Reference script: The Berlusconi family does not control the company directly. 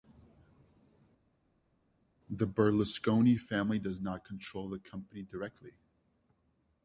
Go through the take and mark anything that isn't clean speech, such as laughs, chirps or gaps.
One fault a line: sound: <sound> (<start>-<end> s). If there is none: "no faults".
no faults